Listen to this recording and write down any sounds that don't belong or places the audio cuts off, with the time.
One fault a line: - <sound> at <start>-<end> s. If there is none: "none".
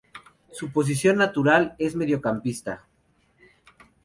none